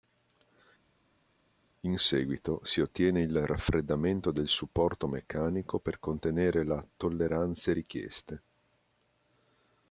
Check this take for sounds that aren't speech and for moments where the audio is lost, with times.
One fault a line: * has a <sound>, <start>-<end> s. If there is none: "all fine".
all fine